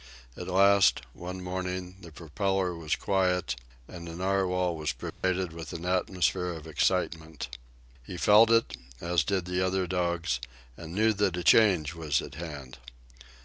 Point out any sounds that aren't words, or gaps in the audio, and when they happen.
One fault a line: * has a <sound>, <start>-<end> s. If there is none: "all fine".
* has a dropout, 5.1-5.2 s